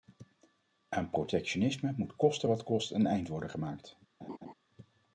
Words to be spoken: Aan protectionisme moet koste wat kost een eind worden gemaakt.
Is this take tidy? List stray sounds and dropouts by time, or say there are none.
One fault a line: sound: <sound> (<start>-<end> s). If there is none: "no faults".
sound: laugh (4.2-4.5 s)